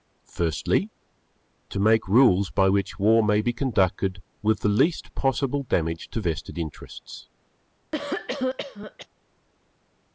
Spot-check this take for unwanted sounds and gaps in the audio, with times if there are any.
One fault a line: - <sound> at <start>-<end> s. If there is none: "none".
- cough at 7.9-9.1 s